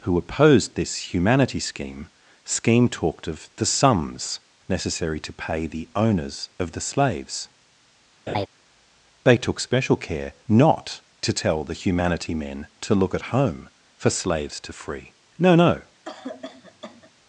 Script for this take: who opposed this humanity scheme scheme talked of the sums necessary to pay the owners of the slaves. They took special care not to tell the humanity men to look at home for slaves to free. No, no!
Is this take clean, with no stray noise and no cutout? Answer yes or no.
no